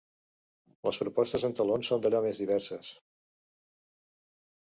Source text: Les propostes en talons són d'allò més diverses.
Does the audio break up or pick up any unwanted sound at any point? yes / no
no